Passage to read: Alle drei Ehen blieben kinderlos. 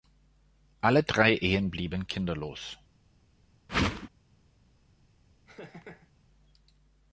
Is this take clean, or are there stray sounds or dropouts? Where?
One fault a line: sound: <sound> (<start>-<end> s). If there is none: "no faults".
sound: whoosh (3.7-4.1 s)
sound: laugh (5.5-6.1 s)